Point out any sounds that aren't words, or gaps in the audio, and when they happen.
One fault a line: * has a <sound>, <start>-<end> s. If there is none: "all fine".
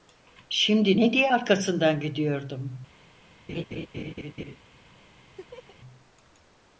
* has a laugh, 3.5-4.6 s
* has a laugh, 5.4-5.8 s